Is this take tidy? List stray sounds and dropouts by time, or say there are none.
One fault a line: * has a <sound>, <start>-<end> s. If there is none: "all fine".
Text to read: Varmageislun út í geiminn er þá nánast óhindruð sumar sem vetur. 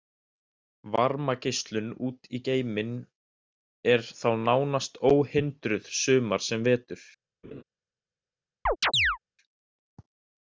* has a laugh, 7.4-7.6 s
* has a chirp, 8.7-9.2 s